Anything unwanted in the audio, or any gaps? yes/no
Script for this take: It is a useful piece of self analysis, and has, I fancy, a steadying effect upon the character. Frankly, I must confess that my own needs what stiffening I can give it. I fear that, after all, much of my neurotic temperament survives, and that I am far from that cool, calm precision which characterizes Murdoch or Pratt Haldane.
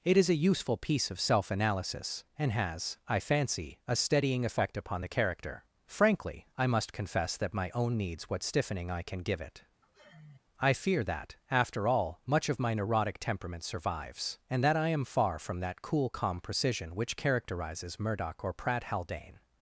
yes